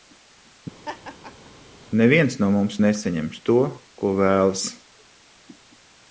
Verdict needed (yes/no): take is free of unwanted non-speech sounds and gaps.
no